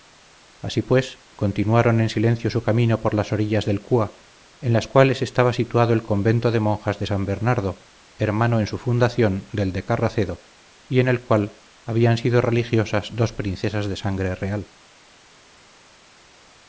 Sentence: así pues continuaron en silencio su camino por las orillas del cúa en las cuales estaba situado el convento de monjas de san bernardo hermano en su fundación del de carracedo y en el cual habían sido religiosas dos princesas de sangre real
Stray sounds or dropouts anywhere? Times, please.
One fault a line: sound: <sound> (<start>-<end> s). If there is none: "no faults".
no faults